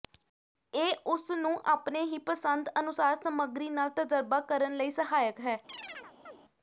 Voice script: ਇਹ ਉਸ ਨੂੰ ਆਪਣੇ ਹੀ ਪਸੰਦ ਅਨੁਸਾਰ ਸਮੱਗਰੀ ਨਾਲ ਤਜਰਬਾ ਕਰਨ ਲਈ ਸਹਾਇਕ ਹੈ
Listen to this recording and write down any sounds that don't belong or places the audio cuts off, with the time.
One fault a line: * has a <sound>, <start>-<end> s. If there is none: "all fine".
* has a chirp, 5.7-6.4 s